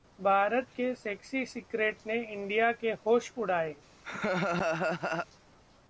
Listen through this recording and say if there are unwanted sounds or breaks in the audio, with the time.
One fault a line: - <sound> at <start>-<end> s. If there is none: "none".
- laugh at 4.0-5.3 s